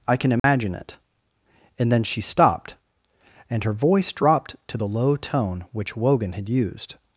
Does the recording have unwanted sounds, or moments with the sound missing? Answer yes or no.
yes